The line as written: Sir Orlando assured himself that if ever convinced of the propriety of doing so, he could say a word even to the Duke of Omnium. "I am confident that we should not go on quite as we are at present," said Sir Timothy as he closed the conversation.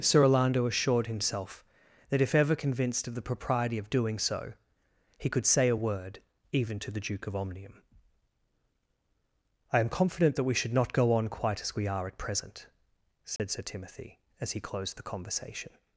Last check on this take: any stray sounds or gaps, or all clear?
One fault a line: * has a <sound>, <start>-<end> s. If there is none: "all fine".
* has a dropout, 13.4-13.4 s